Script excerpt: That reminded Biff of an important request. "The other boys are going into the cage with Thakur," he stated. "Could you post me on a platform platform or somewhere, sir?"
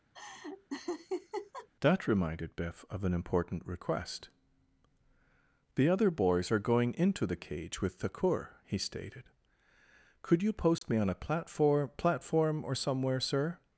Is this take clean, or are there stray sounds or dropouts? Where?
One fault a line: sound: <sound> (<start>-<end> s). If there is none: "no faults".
sound: laugh (0.1-1.7 s)
sound: dropout (10.8-10.8 s)